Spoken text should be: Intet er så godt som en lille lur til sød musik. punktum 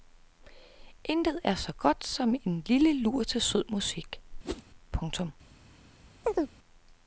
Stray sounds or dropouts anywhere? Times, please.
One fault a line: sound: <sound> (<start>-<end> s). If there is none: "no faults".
sound: whoosh (4.4-4.6 s)
sound: chirp (6.2-6.6 s)